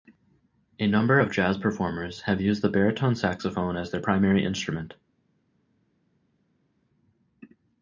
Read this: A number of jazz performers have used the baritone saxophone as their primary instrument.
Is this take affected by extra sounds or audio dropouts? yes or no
no